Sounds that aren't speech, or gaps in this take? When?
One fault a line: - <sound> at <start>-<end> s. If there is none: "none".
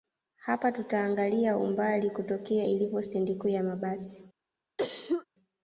- cough at 4.8-5.3 s